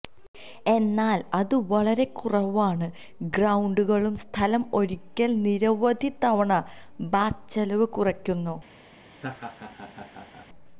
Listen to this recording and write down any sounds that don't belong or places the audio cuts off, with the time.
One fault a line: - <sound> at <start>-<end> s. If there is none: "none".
- laugh at 9.1-10.5 s